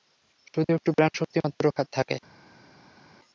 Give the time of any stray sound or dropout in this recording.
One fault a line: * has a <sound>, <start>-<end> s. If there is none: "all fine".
all fine